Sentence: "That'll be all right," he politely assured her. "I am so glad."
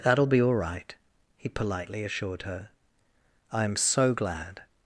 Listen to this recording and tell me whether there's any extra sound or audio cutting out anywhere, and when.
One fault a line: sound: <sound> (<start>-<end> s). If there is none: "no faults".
no faults